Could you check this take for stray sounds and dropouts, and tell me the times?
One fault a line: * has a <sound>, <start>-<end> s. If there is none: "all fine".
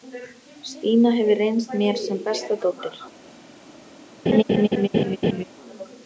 * has a laugh, 4.3-5.4 s